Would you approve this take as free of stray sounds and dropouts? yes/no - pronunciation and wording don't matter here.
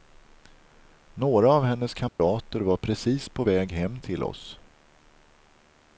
no